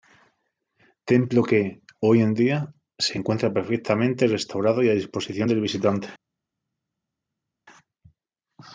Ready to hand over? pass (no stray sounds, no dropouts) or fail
pass